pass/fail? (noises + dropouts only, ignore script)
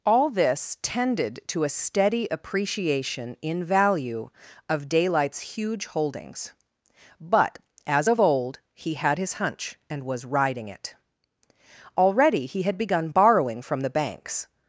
pass